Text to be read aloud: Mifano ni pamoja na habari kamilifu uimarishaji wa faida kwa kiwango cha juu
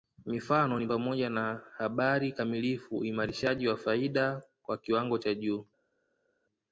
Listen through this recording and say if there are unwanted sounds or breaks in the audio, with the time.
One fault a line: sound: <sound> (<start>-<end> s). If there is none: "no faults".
no faults